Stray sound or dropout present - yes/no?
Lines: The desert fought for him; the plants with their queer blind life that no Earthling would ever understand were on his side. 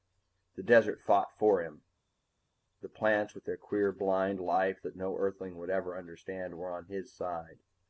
no